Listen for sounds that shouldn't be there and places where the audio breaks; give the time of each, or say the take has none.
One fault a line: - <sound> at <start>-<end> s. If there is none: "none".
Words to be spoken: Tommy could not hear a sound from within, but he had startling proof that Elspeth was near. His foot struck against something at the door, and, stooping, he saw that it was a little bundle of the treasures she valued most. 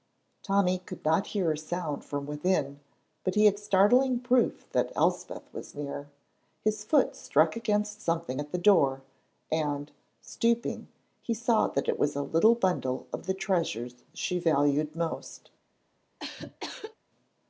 - cough at 16.2-16.9 s